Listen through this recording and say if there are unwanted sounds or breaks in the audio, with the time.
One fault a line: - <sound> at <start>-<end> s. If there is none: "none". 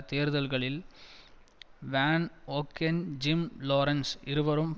none